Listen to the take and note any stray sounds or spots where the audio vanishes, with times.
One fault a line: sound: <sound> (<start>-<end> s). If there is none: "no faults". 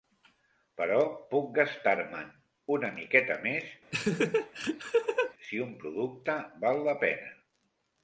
sound: laugh (3.9-5.3 s)